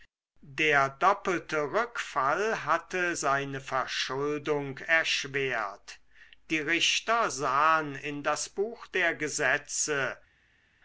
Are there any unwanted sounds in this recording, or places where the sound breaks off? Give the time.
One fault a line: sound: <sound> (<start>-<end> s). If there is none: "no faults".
no faults